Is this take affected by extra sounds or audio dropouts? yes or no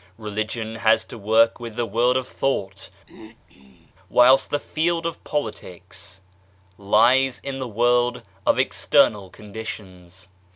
yes